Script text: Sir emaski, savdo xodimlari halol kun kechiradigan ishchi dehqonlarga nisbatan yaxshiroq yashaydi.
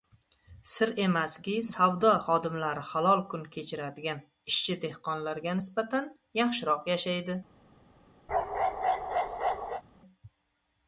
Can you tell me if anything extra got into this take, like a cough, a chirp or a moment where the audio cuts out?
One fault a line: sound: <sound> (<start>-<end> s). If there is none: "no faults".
sound: bark (8.3-9.8 s)